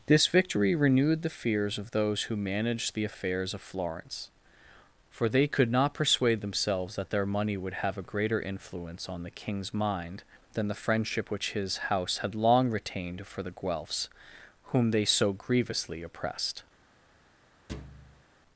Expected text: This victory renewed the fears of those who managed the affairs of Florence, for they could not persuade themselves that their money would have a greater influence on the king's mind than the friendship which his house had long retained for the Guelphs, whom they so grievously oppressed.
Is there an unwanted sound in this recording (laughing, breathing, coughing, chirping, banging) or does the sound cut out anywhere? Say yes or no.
yes